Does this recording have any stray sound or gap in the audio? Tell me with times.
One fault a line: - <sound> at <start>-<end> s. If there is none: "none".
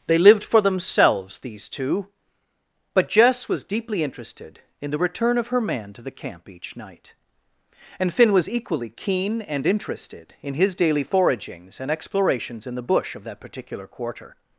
none